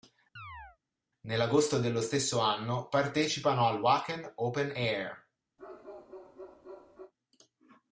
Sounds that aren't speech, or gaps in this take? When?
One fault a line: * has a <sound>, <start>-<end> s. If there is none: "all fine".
* has a chirp, 0.4-0.8 s
* has a bark, 5.6-7.1 s